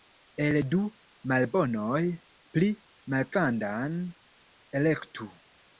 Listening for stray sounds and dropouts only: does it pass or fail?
pass